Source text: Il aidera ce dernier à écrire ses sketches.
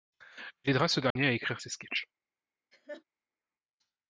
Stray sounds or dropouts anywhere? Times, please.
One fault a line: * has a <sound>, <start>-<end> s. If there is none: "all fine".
* has a dropout, 1.1-1.2 s
* has a laugh, 2.7-3.0 s